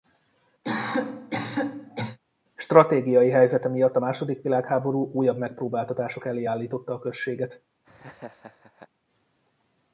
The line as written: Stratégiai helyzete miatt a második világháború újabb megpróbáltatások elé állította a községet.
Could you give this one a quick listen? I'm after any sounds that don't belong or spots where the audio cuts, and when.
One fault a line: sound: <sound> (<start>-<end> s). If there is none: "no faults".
sound: cough (0.6-2.2 s)
sound: laugh (7.8-8.9 s)